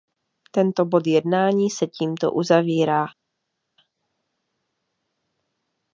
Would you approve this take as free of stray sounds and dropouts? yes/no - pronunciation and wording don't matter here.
yes